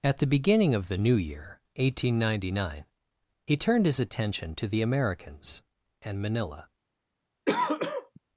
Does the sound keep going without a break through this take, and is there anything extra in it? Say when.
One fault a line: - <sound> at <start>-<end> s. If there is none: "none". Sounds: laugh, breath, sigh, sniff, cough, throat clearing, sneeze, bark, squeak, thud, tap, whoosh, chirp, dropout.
- throat clearing at 7.5-8.2 s